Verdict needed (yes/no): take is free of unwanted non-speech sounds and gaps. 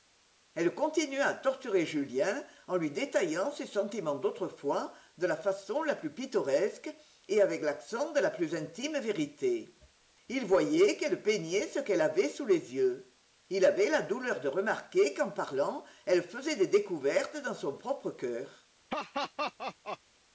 no